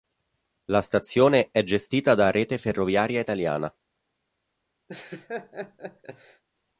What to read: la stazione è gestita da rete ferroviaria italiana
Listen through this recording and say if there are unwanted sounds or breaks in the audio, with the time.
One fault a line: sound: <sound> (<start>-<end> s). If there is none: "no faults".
sound: laugh (4.9-6.4 s)